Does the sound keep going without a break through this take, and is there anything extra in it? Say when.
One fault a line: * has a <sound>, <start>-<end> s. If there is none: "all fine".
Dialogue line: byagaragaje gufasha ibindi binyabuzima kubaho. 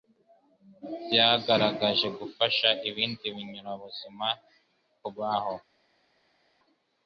all fine